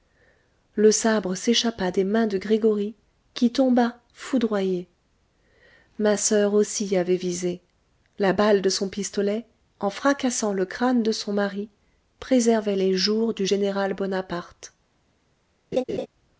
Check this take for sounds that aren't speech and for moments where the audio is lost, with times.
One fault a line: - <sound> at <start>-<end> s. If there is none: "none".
- laugh at 15.7-16.1 s